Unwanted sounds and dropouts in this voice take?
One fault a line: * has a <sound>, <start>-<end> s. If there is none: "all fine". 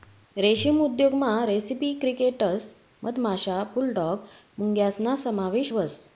all fine